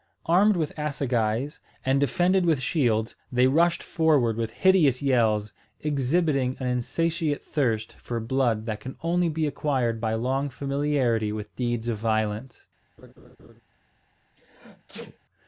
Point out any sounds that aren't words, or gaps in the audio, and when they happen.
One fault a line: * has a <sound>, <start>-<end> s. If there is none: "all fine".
* has a laugh, 13.0-13.6 s
* has a sneeze, 14.4-15.2 s